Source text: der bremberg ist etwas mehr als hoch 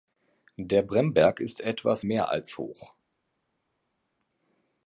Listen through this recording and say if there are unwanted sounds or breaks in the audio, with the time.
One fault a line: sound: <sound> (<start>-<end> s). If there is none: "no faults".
no faults